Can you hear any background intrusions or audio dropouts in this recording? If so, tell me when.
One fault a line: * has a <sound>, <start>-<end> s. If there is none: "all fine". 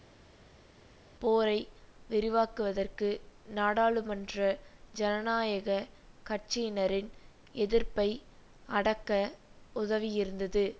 all fine